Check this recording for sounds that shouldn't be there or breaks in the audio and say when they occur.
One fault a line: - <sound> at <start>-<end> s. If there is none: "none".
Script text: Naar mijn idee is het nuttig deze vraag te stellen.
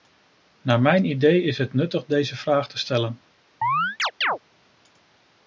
- chirp at 3.6-4.4 s